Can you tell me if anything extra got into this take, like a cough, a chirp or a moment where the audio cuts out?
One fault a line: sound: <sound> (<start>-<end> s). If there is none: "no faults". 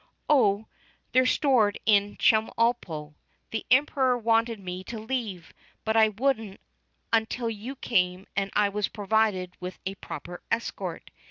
no faults